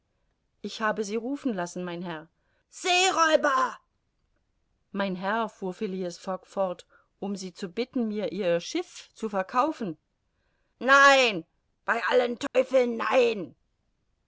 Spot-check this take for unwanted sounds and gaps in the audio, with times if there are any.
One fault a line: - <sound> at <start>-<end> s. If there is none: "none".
- dropout at 12.5-12.5 s